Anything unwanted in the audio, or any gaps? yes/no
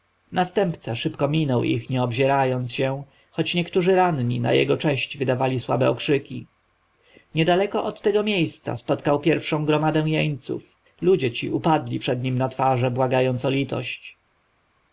no